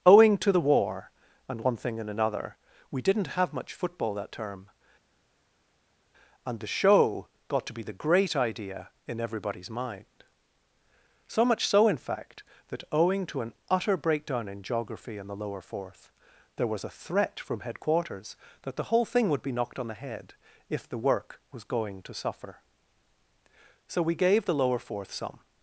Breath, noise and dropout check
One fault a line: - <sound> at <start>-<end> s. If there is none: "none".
none